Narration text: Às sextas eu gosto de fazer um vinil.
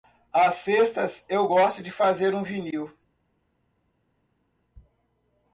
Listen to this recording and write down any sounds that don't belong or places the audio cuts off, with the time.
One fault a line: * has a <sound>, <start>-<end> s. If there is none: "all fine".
all fine